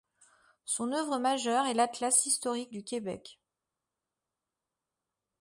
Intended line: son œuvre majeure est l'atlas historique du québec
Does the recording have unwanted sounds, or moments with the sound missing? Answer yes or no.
no